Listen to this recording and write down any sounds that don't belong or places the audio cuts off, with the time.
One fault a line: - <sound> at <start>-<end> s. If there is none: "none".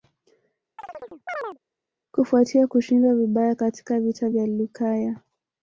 - chirp at 0.8-1.6 s